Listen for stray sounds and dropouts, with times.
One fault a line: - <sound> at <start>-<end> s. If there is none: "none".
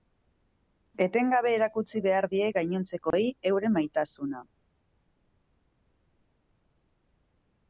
- dropout at 3.1-3.1 s